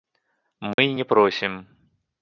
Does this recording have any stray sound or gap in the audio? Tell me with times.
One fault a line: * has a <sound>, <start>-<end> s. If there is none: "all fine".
* has a dropout, 0.7-0.8 s